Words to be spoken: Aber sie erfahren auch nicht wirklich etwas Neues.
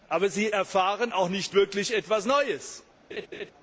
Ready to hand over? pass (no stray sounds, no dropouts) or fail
fail